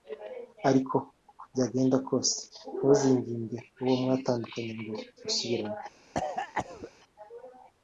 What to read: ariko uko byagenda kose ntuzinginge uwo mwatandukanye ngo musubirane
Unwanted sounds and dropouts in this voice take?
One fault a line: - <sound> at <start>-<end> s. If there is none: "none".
- cough at 6.1-6.9 s